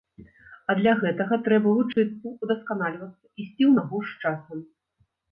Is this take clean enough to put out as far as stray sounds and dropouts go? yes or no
no